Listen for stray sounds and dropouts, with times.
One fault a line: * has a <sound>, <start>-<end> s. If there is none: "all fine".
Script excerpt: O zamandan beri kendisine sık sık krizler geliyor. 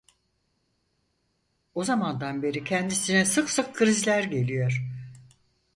all fine